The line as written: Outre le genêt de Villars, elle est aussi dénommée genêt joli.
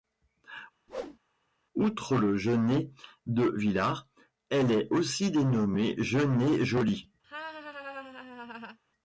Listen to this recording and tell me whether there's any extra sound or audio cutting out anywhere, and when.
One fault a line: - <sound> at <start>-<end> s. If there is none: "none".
- whoosh at 0.9-1.2 s
- laugh at 7.2-8.8 s